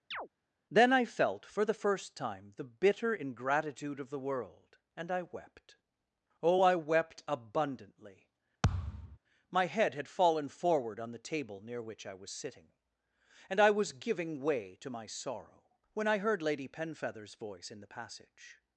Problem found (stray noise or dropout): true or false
true